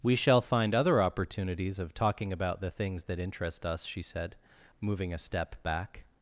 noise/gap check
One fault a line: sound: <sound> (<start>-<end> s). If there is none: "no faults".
no faults